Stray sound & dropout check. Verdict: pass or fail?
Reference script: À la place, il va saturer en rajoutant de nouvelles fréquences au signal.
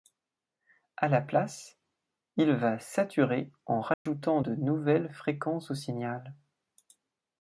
fail